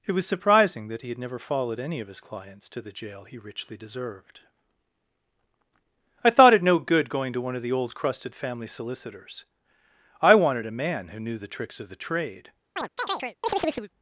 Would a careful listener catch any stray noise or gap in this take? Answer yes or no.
yes